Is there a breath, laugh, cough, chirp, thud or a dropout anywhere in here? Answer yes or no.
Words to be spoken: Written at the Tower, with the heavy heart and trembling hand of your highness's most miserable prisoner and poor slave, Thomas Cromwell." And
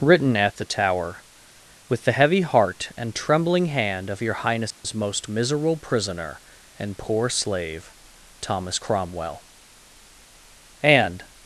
yes